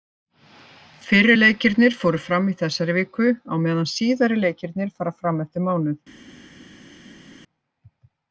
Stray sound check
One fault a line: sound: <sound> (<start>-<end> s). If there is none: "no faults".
no faults